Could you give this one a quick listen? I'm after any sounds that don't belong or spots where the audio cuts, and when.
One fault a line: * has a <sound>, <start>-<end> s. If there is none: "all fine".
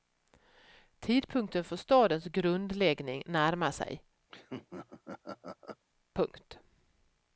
* has a laugh, 4.3-5.8 s